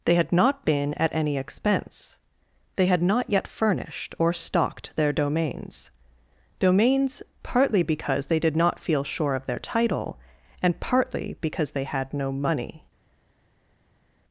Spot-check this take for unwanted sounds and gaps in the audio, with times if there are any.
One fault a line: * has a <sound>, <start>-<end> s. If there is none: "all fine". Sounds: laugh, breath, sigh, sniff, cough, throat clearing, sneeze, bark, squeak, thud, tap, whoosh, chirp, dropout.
all fine